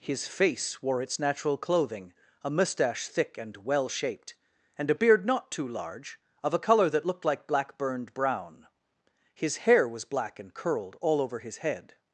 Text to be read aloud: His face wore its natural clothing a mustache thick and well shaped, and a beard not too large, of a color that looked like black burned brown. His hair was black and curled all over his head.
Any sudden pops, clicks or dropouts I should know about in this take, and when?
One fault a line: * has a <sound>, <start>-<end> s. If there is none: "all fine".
all fine